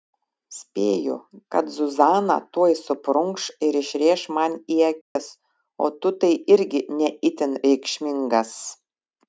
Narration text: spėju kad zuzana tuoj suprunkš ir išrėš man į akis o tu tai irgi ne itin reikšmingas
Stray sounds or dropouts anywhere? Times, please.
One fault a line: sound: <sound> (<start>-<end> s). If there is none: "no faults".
sound: dropout (5.0-5.2 s)